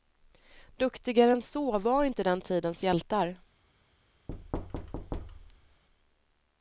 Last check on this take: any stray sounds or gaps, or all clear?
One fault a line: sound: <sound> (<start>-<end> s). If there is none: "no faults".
sound: thud (4.3-5.8 s)